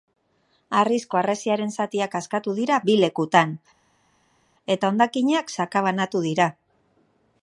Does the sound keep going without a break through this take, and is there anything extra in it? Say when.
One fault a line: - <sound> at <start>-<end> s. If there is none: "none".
none